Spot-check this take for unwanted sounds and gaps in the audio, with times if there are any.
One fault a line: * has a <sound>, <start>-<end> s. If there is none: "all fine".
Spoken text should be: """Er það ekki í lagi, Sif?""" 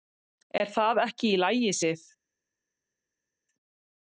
all fine